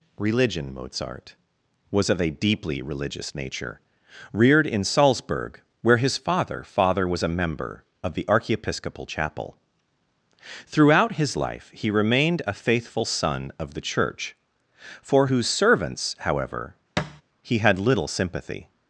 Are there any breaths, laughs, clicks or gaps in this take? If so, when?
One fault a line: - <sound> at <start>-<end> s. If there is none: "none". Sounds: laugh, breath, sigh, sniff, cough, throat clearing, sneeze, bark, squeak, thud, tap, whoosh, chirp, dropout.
- thud at 17.0-17.2 s